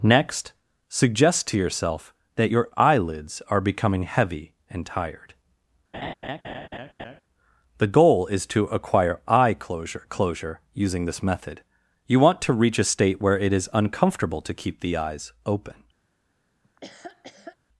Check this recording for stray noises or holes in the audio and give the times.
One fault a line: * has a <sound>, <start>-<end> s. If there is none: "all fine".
* has a laugh, 5.9-7.2 s
* has a laugh, 16.6-17.6 s